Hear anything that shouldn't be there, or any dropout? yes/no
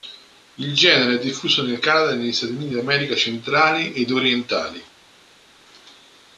no